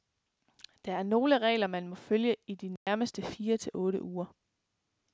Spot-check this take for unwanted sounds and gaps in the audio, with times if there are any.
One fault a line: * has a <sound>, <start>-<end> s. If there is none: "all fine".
* has a dropout, 2.8-2.9 s